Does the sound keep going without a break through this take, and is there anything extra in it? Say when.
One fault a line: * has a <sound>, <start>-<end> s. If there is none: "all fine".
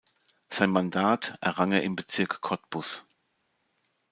all fine